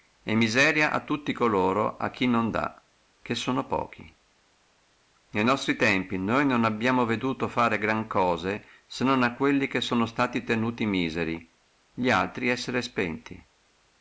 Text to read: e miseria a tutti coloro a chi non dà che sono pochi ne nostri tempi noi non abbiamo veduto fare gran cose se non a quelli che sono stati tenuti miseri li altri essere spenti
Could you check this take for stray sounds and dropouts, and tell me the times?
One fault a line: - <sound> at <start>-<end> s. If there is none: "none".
none